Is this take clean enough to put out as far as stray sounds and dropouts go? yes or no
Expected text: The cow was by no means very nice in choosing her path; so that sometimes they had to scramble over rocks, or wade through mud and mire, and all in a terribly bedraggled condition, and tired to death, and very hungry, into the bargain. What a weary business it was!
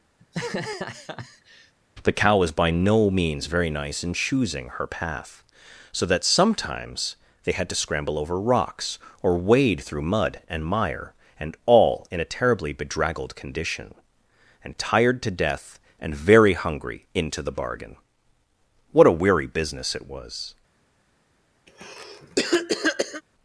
no